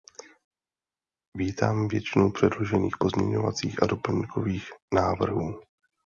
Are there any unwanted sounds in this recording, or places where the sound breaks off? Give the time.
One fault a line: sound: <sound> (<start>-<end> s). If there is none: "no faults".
no faults